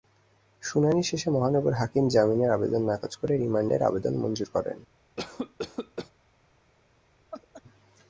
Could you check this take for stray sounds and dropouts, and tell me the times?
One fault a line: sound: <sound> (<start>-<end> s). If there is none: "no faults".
sound: cough (5.2-6.1 s)
sound: laugh (7.3-7.6 s)